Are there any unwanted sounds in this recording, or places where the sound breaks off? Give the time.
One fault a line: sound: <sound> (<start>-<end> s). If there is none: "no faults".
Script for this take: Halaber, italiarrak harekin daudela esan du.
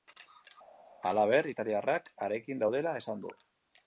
no faults